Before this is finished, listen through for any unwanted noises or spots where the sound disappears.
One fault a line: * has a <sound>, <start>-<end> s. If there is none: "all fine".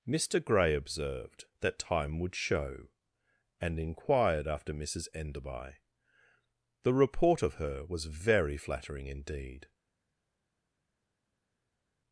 all fine